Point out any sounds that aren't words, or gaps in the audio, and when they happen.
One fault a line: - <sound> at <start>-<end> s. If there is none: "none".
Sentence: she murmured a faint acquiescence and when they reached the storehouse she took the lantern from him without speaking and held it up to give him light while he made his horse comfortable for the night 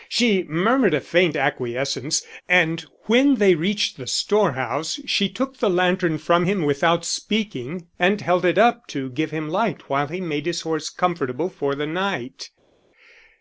none